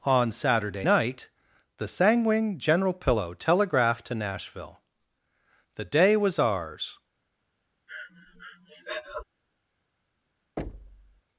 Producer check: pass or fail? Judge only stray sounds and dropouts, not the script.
fail